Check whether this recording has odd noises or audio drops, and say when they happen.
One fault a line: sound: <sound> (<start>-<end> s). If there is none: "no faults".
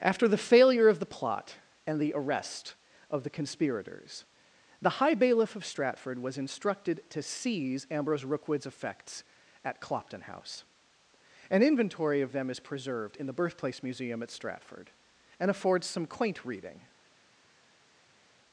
no faults